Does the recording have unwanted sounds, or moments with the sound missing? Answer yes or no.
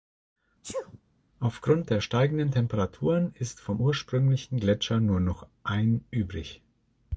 yes